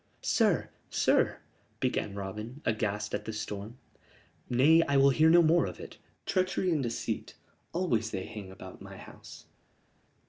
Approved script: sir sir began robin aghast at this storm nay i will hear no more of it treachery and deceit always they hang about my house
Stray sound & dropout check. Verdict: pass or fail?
pass